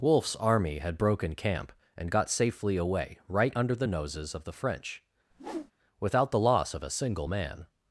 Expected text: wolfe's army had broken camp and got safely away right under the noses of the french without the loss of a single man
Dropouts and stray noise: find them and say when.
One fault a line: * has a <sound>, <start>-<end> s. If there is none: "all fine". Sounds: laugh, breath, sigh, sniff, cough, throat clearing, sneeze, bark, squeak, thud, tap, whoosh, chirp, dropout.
* has a whoosh, 5.3-5.7 s